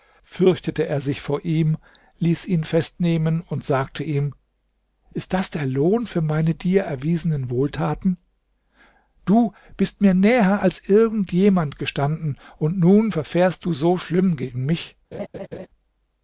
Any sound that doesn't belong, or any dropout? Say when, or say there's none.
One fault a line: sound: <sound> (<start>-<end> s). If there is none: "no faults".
sound: laugh (15.1-15.7 s)